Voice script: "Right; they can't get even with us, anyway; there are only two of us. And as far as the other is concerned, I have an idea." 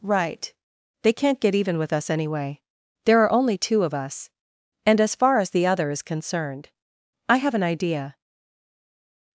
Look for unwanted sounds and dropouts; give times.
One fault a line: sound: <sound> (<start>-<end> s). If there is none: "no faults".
no faults